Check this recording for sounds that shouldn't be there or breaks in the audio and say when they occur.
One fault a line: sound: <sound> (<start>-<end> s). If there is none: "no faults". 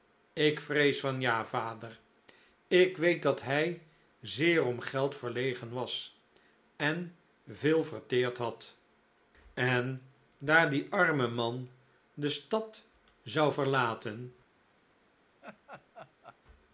sound: laugh (15.4-16.4 s)